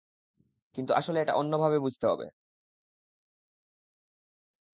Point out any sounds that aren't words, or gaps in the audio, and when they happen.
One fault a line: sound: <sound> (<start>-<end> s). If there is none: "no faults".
no faults